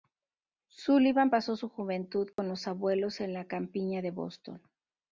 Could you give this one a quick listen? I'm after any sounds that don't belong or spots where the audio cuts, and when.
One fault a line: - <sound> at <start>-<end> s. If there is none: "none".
- dropout at 2.3-2.4 s